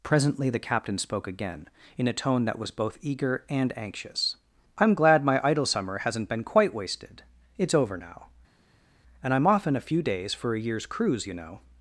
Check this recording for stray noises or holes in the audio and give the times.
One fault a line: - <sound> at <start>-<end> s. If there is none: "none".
none